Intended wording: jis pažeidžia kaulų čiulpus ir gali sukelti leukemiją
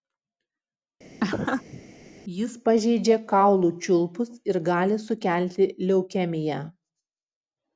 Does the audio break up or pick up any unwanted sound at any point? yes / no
yes